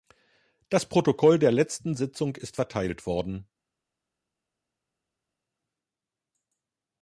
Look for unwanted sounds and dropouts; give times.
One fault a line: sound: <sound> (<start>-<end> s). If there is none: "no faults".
no faults